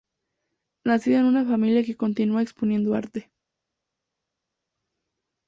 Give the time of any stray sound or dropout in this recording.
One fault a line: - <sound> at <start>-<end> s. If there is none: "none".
none